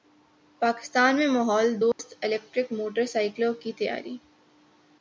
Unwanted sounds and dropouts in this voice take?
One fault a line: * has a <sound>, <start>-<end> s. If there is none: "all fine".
* has a dropout, 1.9-2.0 s